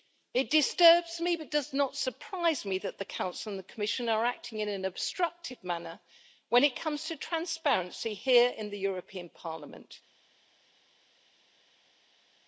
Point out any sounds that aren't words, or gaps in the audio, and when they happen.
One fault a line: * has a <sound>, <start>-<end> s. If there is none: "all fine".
all fine